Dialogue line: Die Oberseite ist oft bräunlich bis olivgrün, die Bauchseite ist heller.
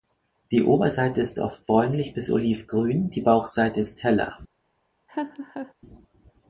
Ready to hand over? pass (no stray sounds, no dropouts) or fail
fail